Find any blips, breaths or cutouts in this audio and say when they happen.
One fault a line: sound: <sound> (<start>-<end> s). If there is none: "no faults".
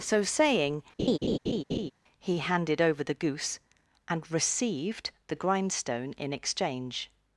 sound: laugh (1.0-1.9 s)